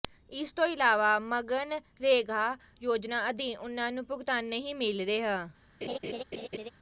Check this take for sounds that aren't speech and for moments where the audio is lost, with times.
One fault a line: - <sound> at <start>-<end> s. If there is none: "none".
- laugh at 5.8-6.7 s